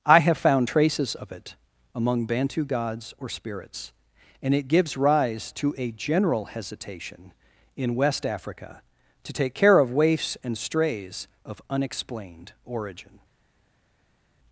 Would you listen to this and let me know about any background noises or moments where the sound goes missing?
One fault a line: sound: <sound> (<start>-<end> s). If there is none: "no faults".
no faults